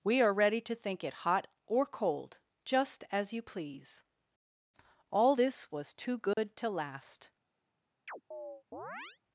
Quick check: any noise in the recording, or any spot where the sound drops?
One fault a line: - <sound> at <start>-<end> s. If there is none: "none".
- dropout at 6.3-6.4 s
- chirp at 8.1-9.2 s